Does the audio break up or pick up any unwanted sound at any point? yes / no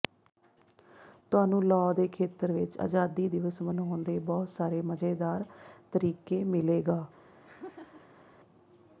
yes